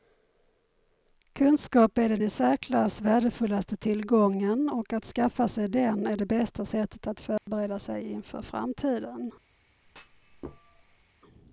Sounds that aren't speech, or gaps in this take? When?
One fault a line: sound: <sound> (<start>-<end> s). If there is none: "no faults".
sound: dropout (7.4-7.5 s)
sound: thud (9.8-11.0 s)